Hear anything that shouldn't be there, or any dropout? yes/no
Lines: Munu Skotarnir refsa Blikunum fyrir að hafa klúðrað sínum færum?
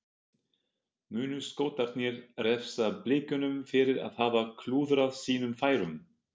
no